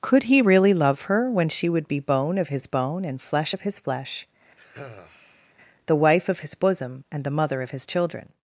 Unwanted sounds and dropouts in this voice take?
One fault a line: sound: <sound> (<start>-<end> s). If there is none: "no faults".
sound: sigh (4.6-5.5 s)